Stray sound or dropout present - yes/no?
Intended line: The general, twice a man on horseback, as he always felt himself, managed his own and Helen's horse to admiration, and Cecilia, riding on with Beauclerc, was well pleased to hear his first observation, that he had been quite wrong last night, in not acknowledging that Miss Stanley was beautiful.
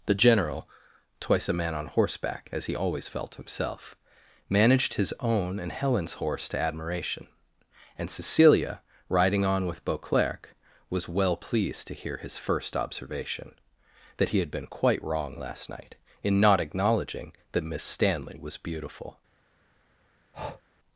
yes